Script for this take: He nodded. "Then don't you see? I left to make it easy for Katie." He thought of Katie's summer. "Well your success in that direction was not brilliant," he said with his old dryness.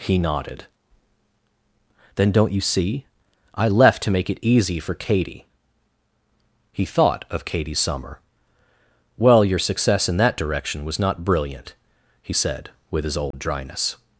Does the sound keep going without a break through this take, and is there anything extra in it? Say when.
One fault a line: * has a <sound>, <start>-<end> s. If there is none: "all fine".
* has a dropout, 13.3-13.3 s